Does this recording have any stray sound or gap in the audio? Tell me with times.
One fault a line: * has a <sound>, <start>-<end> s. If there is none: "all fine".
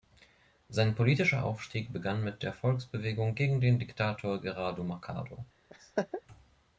* has a laugh, 5.7-6.2 s